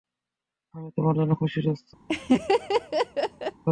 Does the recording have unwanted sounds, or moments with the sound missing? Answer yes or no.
yes